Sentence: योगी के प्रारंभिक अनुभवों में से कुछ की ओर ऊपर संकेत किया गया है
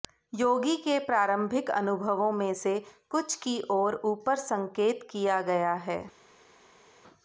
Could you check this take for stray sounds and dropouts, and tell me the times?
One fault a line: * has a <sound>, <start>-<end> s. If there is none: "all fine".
all fine